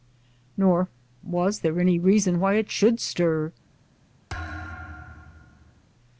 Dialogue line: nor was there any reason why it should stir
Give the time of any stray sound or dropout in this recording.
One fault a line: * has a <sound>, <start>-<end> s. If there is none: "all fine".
* has a thud, 4.3-5.8 s